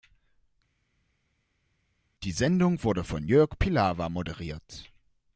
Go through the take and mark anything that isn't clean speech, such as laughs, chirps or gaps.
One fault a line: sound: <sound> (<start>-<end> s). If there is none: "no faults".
no faults